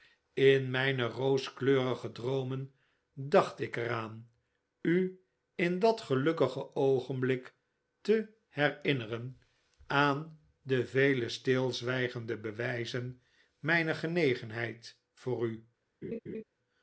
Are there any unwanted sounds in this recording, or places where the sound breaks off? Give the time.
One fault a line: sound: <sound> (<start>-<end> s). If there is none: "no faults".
sound: laugh (16.0-16.4 s)